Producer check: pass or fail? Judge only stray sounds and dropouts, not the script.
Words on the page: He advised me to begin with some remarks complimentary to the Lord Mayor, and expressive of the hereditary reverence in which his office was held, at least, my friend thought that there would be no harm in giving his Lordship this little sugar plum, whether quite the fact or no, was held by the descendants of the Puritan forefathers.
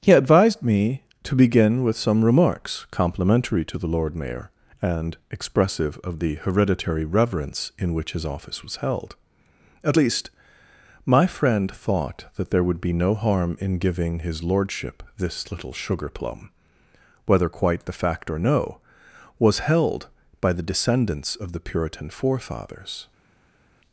pass